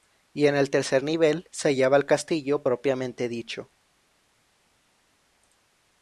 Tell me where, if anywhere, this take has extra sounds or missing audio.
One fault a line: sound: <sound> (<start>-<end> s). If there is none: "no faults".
no faults